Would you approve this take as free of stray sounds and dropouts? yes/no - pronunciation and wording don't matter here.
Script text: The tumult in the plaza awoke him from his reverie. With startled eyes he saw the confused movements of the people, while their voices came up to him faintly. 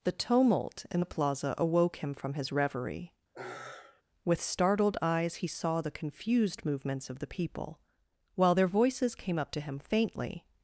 no